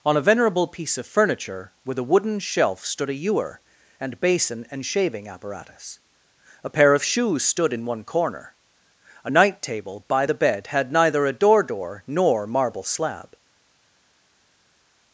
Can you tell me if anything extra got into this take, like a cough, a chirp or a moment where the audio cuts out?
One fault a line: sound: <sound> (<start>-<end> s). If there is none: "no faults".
no faults